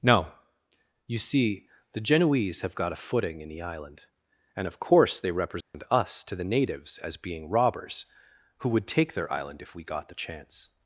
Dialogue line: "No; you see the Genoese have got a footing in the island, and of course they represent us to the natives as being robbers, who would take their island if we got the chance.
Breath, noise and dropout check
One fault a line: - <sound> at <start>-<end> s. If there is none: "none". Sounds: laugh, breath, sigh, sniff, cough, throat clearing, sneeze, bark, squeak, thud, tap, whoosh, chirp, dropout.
- dropout at 5.6-5.7 s